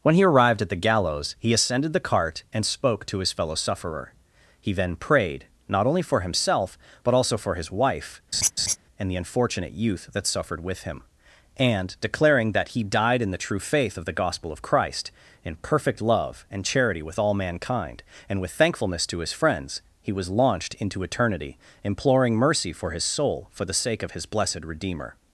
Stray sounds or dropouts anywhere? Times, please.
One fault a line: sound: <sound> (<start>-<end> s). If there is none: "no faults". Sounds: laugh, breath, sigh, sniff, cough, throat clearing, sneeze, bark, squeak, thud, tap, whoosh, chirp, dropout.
sound: laugh (8.3-8.8 s)